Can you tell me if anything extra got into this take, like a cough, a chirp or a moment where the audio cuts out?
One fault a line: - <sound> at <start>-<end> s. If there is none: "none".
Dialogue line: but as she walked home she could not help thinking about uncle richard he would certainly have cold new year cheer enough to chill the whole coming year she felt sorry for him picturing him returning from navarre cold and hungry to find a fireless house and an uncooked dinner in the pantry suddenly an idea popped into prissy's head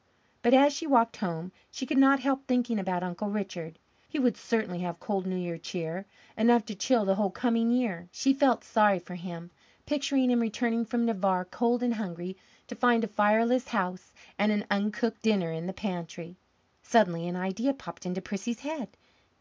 none